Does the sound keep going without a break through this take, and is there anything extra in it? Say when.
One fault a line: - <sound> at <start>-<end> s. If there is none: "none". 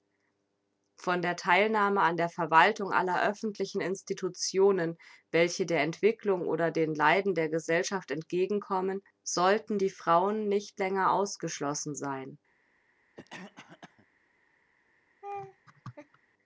- cough at 13.2-14.1 s
- laugh at 15.2-16.2 s